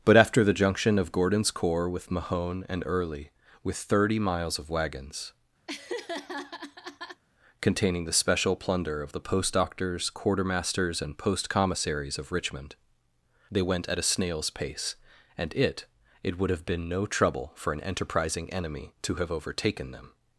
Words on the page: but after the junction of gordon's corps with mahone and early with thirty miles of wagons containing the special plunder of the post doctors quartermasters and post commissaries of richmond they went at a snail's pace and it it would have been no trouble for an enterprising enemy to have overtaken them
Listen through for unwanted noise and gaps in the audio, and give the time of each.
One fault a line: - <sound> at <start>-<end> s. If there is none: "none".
- laugh at 5.7-7.2 s